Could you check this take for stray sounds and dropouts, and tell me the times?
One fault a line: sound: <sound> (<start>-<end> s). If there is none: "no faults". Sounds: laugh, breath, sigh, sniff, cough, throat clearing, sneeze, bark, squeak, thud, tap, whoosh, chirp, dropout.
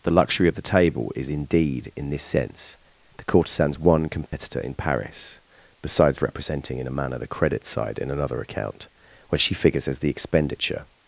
sound: dropout (4.3-4.3 s)